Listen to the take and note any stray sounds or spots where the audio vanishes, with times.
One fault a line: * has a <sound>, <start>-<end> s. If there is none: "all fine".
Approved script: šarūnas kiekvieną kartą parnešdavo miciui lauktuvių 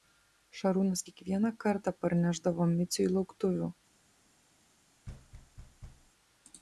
* has a thud, 5.1-6.1 s